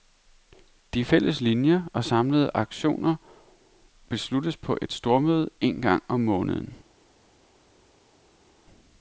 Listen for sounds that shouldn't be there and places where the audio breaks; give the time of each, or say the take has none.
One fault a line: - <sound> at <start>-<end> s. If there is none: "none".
none